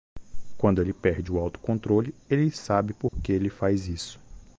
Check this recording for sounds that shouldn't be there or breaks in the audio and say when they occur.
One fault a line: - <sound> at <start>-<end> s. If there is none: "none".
- dropout at 3.1-3.1 s